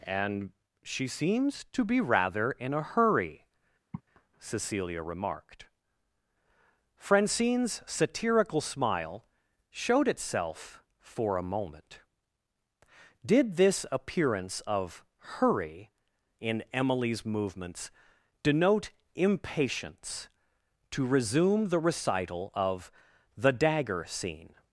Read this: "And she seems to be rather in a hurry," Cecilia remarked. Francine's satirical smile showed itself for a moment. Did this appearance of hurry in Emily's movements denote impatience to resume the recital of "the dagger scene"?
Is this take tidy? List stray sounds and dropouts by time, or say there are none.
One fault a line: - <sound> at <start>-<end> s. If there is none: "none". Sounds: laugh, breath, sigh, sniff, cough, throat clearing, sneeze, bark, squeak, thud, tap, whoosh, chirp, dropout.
- sigh at 3.9-4.0 s